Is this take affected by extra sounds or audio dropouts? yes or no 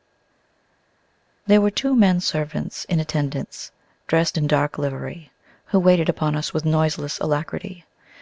no